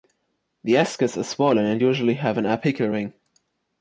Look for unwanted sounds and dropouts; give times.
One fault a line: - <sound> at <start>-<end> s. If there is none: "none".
none